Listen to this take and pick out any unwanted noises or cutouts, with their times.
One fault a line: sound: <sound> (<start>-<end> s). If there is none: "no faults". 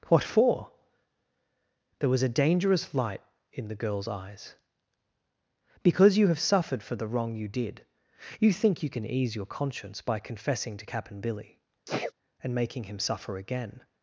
sound: sneeze (11.9-12.1 s)